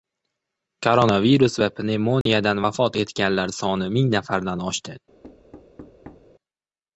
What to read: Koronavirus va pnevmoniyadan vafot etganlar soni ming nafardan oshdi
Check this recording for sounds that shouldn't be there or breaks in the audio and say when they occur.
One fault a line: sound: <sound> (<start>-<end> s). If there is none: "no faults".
sound: dropout (2.2-2.3 s)
sound: thud (5.2-6.3 s)